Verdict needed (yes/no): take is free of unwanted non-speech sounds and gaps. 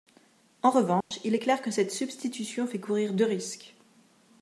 no